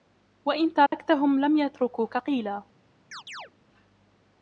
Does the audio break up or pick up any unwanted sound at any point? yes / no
yes